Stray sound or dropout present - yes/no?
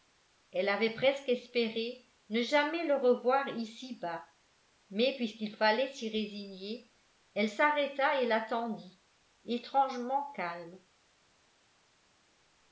no